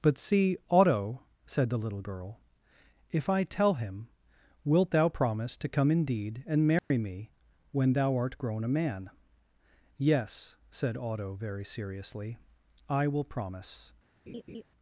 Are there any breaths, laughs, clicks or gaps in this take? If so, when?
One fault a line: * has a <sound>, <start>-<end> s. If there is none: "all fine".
* has a dropout, 6.8-6.9 s
* has a laugh, 14.3-14.6 s